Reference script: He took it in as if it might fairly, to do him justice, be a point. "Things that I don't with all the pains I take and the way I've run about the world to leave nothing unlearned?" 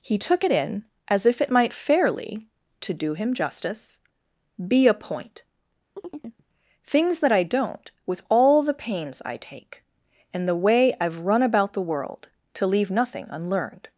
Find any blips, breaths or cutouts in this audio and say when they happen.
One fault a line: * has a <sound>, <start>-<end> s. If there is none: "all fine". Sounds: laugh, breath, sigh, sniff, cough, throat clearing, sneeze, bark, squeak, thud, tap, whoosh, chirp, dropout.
* has a chirp, 6.0-6.4 s